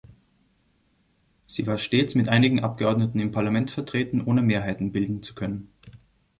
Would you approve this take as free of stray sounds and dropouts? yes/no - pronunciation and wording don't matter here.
yes